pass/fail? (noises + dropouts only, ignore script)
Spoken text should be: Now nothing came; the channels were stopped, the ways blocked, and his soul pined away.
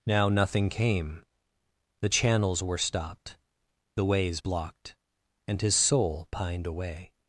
pass